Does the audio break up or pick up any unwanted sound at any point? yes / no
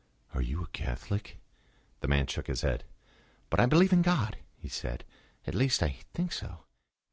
no